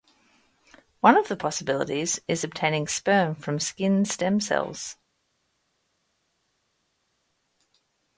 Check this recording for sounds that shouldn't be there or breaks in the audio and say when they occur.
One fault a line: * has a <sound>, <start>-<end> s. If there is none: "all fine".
all fine